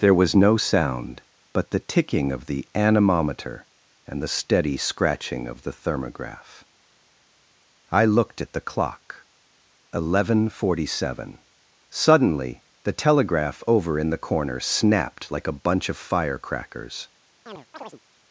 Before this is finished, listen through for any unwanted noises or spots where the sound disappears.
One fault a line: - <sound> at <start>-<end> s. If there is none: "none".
- chirp at 17.5-18.0 s